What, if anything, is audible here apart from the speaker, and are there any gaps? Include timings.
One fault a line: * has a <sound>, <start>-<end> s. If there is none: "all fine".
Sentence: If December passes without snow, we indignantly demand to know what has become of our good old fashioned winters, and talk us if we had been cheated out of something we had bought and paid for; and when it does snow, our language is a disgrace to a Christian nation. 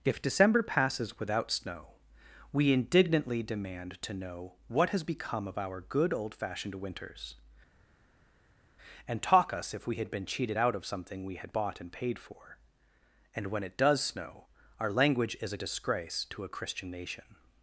all fine